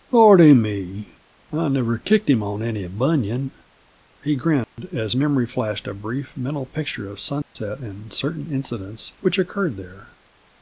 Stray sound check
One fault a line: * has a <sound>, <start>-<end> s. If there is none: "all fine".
* has a dropout, 4.6-4.8 s
* has a dropout, 7.4-7.6 s